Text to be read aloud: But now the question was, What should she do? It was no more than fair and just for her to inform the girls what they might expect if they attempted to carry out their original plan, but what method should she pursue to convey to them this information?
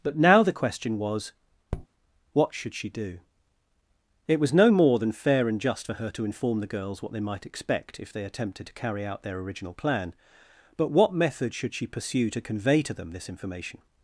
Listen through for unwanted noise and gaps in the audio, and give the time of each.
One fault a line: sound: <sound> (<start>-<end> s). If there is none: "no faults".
sound: tap (1.7-1.9 s)